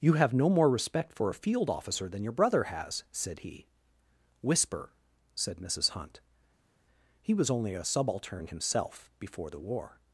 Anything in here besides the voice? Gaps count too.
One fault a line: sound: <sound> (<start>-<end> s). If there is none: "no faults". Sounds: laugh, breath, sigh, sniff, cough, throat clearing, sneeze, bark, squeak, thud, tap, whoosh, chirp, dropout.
no faults